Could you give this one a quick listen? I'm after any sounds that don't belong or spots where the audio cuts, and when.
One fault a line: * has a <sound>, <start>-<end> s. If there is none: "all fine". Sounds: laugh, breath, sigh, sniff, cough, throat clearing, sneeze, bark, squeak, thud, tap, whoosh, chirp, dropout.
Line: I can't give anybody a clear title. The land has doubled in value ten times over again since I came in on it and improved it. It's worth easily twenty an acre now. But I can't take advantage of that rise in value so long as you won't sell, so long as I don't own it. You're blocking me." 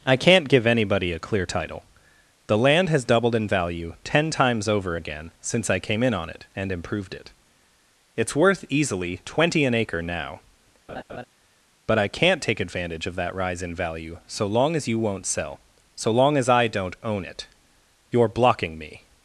* has a laugh, 10.9-11.2 s